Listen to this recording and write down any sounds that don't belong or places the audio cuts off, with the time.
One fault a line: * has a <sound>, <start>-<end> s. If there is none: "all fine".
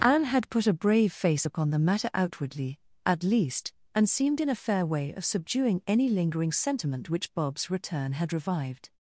all fine